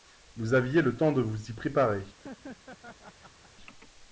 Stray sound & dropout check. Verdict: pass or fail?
fail